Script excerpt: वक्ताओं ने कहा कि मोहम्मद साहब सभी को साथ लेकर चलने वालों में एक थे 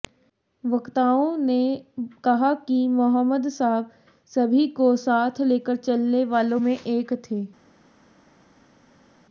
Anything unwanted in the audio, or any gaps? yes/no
no